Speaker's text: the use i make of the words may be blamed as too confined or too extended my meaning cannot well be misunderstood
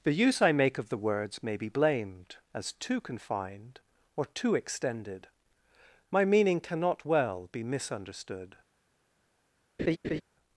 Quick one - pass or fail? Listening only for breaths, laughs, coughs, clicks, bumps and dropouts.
fail